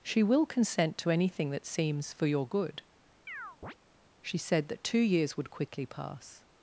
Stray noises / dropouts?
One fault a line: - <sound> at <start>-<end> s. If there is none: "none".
- chirp at 3.3-3.7 s